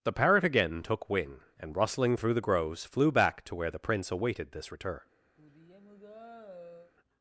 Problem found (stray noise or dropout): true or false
true